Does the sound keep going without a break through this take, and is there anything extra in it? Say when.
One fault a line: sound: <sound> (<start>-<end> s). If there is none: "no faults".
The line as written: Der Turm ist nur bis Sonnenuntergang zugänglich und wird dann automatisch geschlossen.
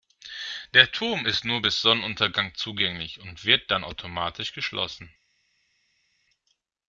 no faults